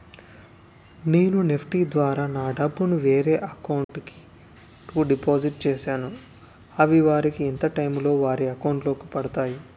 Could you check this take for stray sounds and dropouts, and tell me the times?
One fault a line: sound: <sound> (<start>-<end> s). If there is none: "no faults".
sound: dropout (3.8-3.9 s)